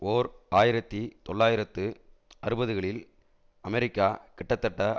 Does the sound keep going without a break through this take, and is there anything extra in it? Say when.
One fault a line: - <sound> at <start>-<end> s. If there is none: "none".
none